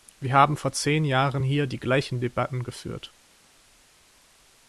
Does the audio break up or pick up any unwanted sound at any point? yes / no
no